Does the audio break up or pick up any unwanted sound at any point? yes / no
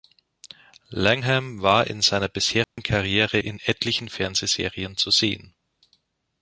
yes